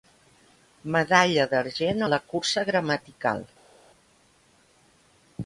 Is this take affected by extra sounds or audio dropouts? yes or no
no